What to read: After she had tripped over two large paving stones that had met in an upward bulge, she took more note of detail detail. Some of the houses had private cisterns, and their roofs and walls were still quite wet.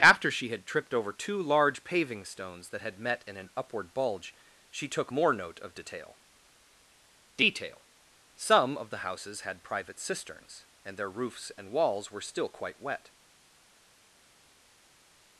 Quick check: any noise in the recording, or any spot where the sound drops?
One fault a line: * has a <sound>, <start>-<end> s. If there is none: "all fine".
all fine